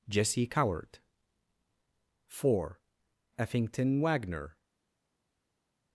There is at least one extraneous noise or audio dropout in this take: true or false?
false